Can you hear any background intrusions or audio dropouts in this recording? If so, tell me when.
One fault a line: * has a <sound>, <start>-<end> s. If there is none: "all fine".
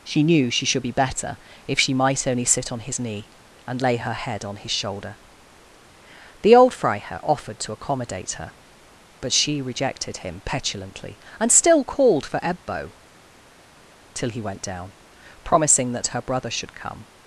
all fine